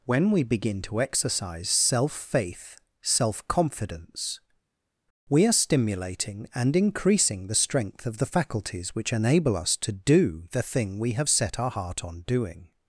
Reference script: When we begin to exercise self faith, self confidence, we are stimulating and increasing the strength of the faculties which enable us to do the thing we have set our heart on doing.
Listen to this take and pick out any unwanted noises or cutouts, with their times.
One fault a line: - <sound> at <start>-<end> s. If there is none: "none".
none